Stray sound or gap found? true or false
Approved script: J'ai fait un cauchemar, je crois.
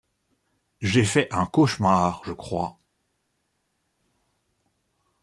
false